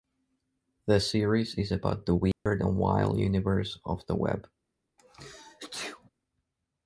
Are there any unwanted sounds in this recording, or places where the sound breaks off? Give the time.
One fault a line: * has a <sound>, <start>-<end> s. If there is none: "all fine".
* has a dropout, 2.3-2.5 s
* has a sneeze, 5.0-6.1 s